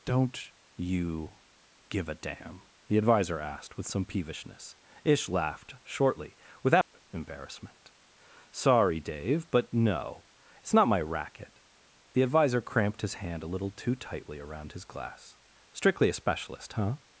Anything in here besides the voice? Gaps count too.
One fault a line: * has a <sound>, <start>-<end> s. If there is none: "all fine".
* has a dropout, 6.8-6.9 s